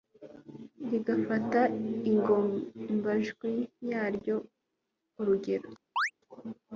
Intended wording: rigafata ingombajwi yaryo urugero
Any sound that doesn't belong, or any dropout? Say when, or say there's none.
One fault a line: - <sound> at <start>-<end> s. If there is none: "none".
- chirp at 6.0-6.1 s